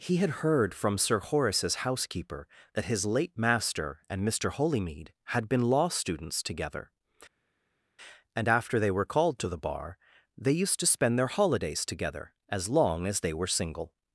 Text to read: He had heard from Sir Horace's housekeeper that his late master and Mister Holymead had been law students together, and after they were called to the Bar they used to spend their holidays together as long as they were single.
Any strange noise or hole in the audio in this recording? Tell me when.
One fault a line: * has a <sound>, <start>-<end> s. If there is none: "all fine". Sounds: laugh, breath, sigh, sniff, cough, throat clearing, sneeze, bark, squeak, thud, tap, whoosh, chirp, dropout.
all fine